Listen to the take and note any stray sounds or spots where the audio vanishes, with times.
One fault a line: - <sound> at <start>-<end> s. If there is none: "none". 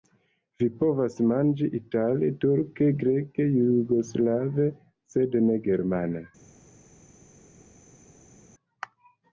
none